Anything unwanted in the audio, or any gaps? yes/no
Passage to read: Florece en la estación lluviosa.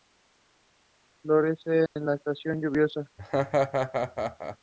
yes